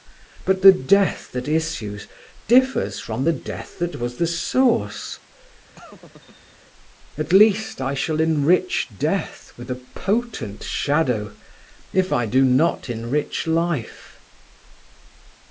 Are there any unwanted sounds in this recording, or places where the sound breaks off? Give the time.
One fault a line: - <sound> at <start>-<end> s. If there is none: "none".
- laugh at 5.7-6.6 s